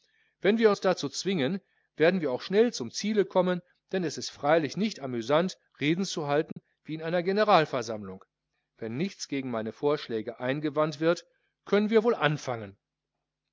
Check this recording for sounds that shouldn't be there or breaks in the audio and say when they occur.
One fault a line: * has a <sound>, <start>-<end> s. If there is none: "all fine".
* has a dropout, 6.5-6.6 s